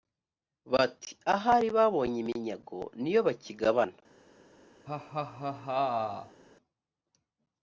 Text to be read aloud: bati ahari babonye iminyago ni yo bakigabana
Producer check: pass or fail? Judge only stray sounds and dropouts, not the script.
fail